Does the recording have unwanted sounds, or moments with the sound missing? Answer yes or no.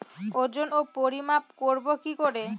no